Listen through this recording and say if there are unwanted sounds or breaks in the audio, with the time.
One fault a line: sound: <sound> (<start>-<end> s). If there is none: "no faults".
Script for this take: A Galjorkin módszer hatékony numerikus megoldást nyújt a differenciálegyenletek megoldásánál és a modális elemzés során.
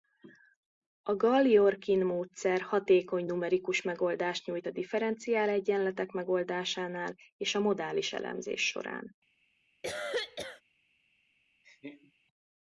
sound: cough (9.8-10.6 s)
sound: laugh (11.6-12.1 s)